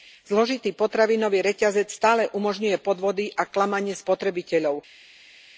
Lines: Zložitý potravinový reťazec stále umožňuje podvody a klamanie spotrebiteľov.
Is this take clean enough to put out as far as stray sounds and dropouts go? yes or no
yes